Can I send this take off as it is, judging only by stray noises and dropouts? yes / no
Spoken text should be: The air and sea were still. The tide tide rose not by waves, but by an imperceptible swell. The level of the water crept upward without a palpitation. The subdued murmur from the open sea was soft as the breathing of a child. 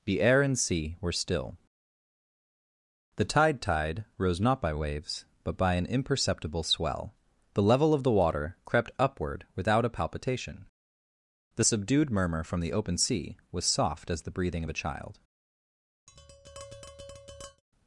no